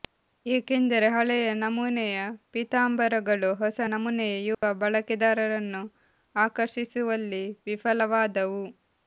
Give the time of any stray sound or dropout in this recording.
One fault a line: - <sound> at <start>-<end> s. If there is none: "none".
- dropout at 4.5-4.6 s